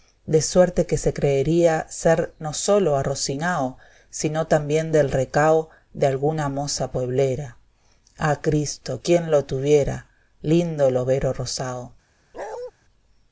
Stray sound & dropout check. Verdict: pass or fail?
fail